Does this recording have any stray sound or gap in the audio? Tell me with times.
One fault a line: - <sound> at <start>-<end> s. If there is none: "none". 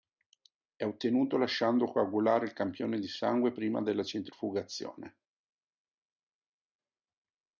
none